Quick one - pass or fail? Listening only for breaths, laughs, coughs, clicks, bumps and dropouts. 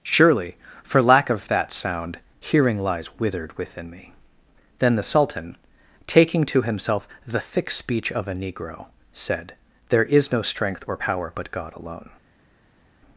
pass